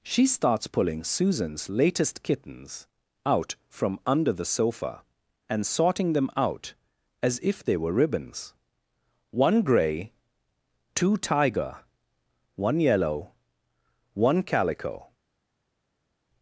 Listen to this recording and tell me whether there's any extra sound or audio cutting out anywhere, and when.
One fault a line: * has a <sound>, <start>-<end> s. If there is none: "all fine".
all fine